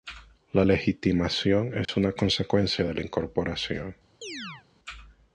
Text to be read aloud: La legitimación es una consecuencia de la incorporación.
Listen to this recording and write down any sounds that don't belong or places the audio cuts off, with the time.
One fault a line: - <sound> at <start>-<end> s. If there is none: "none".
- dropout at 1.8-1.9 s
- chirp at 4.2-4.7 s